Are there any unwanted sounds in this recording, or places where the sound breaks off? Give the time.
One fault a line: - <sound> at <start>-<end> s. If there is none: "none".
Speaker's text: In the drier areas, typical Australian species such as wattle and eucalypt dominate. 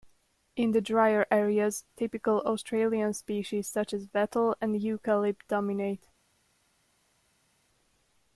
none